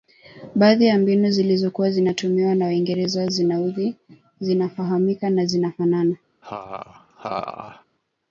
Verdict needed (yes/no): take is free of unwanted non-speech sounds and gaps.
no